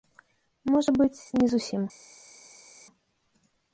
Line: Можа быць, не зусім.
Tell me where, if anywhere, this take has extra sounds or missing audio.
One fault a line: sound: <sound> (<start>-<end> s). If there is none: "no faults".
no faults